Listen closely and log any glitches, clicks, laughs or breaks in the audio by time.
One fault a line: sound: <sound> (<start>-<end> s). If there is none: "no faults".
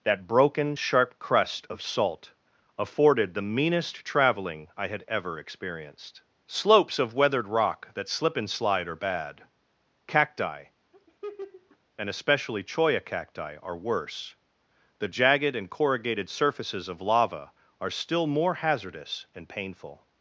sound: laugh (10.9-11.8 s)